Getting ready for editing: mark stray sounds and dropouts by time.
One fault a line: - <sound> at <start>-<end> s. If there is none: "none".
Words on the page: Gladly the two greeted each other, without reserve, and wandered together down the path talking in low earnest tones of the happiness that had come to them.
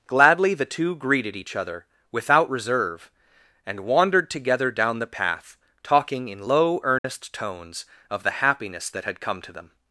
- dropout at 7.0-7.0 s